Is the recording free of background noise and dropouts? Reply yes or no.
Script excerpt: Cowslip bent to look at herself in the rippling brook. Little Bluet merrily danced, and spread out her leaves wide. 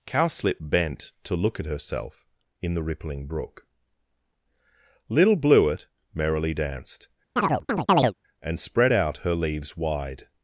no